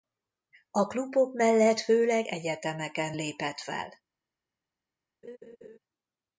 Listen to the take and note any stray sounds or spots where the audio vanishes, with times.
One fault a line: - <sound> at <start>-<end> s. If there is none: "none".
- laugh at 5.2-5.8 s